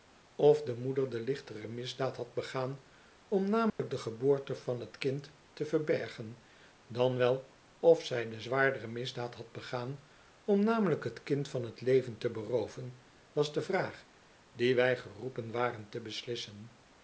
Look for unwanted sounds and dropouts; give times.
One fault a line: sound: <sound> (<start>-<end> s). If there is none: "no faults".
sound: dropout (3.7-3.8 s)